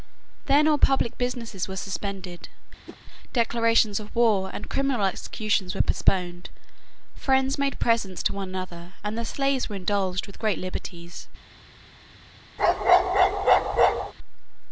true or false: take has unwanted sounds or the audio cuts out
true